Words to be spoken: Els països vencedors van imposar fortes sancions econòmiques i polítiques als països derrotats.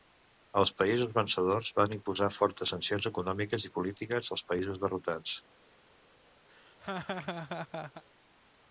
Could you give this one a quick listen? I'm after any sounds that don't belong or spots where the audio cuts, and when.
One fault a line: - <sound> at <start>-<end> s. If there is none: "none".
- laugh at 6.5-8.0 s